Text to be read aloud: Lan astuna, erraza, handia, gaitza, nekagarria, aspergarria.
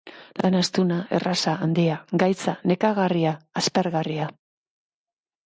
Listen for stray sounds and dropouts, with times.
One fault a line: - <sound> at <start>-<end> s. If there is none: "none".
none